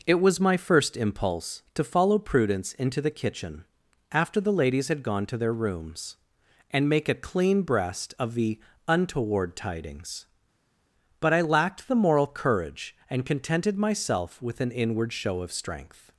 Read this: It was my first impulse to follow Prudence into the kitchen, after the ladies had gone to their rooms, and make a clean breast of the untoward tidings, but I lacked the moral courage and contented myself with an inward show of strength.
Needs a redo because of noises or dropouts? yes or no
no